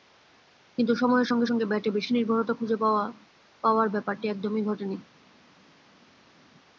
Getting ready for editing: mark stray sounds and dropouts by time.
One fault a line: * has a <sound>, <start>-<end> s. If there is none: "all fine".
all fine